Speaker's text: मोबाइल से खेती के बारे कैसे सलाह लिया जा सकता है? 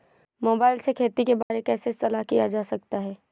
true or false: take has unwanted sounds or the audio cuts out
true